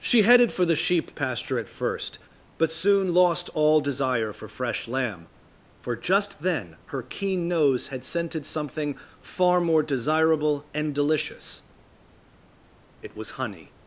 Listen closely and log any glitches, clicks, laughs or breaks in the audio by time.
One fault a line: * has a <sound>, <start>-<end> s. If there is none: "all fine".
all fine